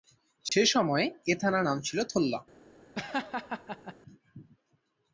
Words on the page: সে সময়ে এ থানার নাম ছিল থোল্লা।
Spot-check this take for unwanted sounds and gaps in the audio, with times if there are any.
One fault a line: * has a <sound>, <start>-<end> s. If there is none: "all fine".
* has a dropout, 0.5-0.5 s
* has a laugh, 2.9-3.9 s